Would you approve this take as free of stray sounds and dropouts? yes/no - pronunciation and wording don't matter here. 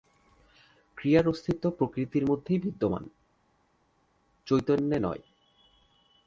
yes